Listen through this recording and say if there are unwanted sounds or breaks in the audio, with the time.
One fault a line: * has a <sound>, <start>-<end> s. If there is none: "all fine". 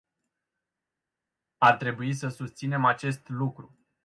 all fine